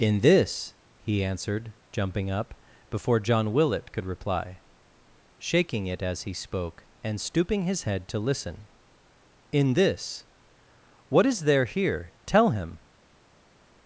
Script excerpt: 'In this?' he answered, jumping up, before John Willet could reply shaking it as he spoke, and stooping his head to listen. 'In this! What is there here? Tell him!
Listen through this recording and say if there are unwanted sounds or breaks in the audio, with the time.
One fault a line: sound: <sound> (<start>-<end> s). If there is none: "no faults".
no faults